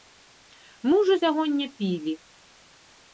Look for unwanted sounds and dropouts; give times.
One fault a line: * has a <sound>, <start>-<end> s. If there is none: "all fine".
all fine